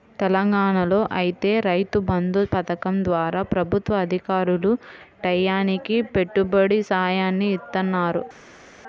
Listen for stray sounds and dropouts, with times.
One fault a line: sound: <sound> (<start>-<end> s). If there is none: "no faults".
no faults